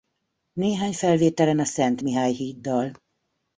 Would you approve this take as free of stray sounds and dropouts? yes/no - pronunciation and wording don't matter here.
yes